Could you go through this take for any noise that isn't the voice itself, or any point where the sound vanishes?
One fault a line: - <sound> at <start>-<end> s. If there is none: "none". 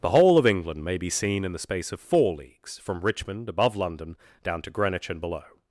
none